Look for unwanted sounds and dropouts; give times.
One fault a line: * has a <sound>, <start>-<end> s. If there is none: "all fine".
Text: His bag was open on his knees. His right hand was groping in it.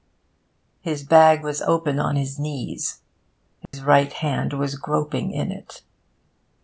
* has a dropout, 3.7-3.7 s